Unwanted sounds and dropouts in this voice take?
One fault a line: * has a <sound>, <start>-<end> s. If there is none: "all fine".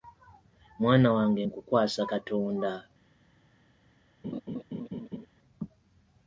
* has a laugh, 4.2-5.3 s